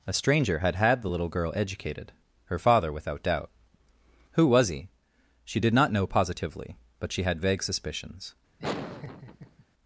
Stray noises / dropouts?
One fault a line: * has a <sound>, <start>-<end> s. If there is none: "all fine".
* has a laugh, 8.6-9.6 s